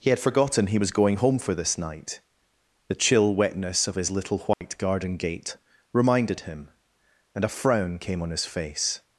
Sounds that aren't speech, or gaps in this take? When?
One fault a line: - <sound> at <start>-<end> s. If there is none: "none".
- dropout at 4.5-4.6 s